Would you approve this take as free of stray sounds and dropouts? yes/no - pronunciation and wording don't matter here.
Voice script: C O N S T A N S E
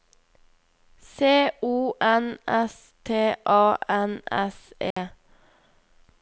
no